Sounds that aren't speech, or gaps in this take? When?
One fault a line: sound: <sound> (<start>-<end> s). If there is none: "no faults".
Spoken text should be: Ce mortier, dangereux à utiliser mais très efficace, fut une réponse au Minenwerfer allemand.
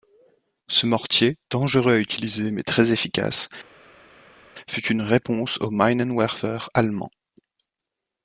no faults